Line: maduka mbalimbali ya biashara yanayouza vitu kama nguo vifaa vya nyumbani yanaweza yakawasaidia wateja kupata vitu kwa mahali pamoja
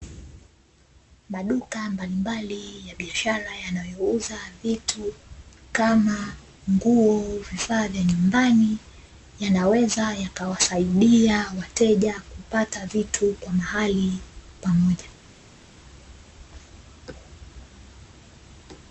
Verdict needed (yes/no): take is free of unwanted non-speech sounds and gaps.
yes